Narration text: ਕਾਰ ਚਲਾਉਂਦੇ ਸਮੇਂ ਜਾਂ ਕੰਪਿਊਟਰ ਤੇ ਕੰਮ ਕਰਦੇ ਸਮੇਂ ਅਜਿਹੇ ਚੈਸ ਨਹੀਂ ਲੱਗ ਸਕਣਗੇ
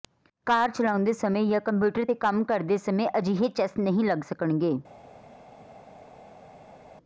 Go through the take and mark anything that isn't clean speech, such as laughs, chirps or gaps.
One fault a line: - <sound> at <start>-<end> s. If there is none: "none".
none